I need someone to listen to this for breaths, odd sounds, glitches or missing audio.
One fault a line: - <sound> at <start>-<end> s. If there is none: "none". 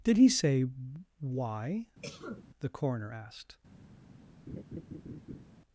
- cough at 2.0-2.5 s
- laugh at 4.5-5.4 s